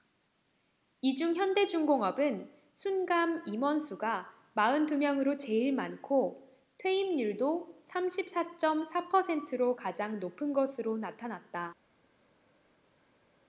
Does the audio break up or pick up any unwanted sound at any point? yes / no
no